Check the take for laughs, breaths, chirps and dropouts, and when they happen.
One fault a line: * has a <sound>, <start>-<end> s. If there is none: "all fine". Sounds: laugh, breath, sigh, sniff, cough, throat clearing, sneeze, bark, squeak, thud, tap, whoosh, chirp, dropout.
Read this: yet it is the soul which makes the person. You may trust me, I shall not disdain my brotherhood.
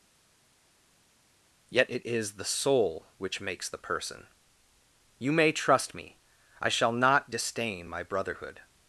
all fine